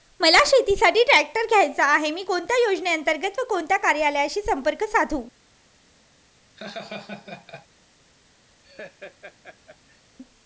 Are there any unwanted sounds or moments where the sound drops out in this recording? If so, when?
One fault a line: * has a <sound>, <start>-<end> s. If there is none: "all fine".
* has a laugh, 6.6-7.7 s
* has a laugh, 8.6-10.0 s